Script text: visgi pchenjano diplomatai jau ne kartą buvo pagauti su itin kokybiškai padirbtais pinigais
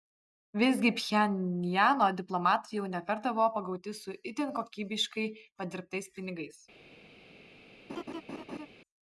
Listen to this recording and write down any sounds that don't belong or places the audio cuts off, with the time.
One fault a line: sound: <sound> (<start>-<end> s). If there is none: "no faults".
sound: laugh (7.9-8.7 s)